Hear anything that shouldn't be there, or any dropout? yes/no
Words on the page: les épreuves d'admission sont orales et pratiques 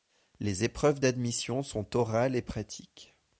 no